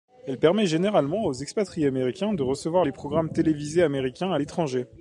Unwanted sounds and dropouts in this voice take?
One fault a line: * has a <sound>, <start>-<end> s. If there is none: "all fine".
all fine